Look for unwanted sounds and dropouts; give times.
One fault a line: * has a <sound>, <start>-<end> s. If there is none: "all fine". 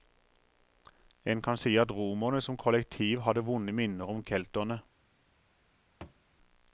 * has a thud, 6.0-6.2 s